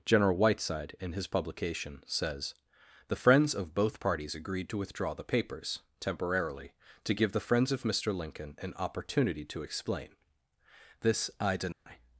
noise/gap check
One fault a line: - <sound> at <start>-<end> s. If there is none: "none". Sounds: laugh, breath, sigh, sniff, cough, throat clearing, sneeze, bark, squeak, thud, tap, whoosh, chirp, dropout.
- dropout at 11.7-11.9 s